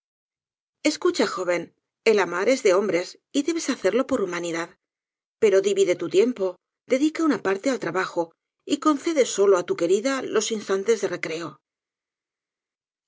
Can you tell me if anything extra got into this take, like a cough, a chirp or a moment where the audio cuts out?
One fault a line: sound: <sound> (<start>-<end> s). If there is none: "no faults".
no faults